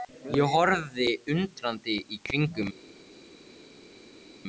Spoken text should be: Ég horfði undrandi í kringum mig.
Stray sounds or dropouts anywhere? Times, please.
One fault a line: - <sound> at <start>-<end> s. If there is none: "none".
none